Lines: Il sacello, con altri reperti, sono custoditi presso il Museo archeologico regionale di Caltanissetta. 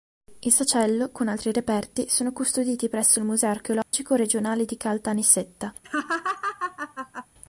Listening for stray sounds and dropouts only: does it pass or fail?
fail